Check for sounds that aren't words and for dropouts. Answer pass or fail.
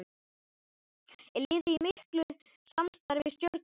pass